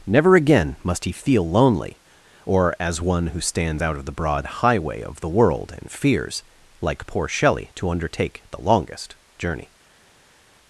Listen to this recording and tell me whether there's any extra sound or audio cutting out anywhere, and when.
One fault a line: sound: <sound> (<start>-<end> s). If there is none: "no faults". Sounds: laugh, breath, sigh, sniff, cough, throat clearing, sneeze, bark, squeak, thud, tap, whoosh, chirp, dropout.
no faults